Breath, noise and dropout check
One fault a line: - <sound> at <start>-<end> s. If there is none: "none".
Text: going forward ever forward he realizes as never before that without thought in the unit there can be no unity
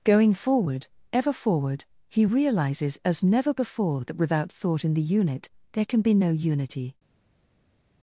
none